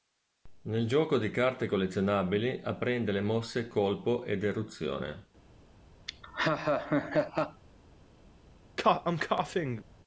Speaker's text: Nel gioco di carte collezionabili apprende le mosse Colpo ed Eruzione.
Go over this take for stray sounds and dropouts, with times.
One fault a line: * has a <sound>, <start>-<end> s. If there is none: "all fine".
* has a laugh, 6.1-7.6 s
* has a cough, 8.8-9.8 s